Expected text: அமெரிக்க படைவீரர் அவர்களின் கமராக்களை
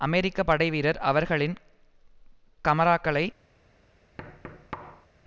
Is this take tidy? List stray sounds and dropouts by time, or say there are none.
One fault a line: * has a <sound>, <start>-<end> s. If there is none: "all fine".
* has a thud, 4.2-5.1 s